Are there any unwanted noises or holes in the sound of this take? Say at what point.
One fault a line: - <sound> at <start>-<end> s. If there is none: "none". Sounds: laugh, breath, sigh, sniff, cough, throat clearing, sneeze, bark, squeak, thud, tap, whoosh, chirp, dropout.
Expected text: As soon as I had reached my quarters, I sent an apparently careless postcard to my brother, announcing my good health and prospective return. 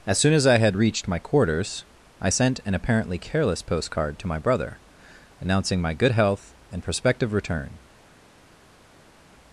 none